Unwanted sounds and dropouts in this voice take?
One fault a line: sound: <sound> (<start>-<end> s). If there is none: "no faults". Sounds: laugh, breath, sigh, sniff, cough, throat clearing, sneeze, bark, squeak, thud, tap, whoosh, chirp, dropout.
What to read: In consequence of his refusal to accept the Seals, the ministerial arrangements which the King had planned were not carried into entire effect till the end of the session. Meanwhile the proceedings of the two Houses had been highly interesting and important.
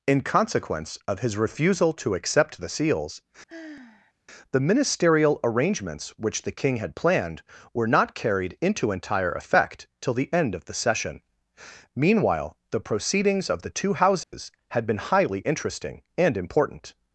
sound: sigh (3.5-4.1 s)
sound: dropout (14.2-14.3 s)